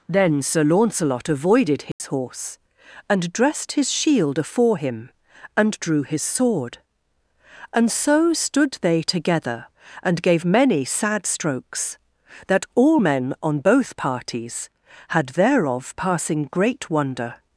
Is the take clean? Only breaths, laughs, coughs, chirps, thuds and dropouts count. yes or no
no